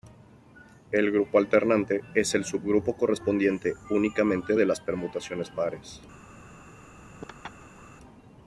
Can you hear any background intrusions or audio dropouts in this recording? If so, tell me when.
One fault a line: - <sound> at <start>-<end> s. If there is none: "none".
- laugh at 7.2-7.8 s